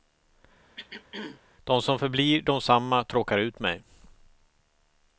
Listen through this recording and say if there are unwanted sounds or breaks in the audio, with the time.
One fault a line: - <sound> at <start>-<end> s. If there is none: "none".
- throat clearing at 0.8-1.4 s